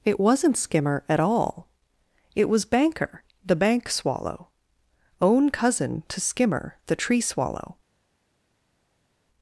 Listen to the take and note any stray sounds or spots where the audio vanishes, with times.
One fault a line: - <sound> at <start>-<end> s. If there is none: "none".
none